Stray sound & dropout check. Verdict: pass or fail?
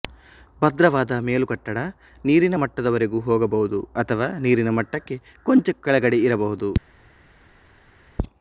pass